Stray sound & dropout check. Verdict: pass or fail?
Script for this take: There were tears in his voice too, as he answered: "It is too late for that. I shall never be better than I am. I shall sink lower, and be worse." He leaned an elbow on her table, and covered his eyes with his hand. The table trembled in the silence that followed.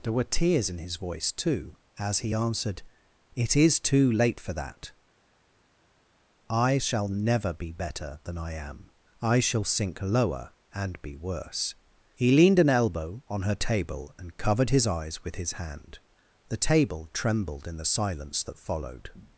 pass